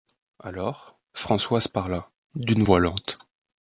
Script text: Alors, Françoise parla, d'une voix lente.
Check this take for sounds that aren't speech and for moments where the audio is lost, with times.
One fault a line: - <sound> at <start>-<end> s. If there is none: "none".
none